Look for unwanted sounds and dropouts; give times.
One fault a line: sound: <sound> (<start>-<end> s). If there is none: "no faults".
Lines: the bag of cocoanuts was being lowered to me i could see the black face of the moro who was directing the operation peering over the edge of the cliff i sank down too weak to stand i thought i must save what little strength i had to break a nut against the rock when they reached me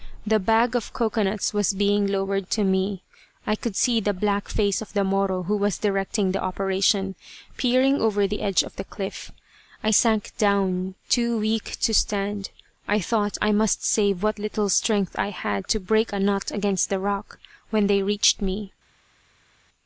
no faults